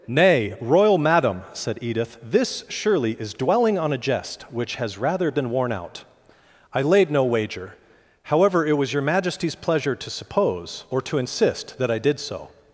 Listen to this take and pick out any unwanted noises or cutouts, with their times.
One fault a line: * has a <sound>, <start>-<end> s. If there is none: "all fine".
all fine